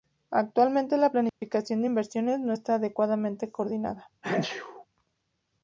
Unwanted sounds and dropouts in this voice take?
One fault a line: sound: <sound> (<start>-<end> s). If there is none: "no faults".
sound: dropout (1.3-1.4 s)
sound: sneeze (4.2-4.9 s)